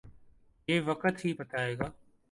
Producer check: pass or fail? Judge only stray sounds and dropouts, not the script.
pass